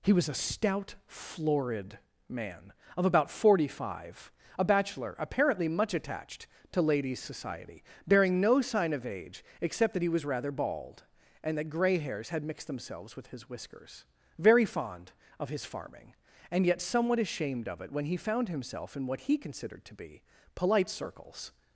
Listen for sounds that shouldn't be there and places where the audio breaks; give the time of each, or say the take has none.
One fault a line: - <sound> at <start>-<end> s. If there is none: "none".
none